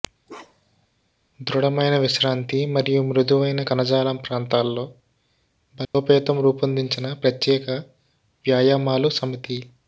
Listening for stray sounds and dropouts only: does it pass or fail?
fail